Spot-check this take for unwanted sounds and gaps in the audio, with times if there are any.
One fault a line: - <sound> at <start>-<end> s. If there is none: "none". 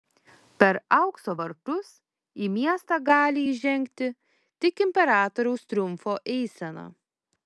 none